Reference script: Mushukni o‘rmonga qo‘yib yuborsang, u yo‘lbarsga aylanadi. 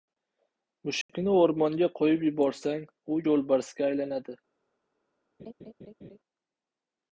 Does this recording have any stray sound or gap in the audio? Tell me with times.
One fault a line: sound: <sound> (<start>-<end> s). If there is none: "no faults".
sound: dropout (1.0-1.1 s)
sound: laugh (5.4-6.2 s)